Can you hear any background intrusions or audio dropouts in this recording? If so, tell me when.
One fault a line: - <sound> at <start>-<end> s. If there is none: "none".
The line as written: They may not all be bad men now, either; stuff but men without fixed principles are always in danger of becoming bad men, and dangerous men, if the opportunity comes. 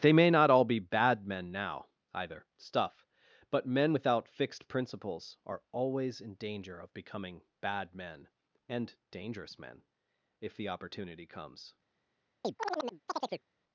- chirp at 12.4-13.5 s